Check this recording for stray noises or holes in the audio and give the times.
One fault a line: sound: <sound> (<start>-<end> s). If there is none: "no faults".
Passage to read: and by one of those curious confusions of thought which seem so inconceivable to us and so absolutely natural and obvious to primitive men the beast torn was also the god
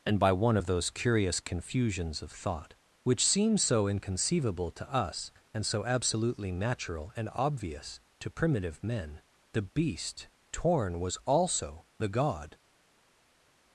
no faults